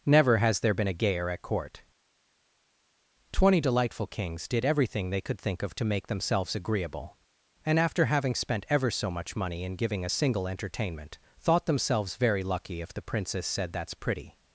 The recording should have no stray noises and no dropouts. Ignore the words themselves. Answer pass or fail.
pass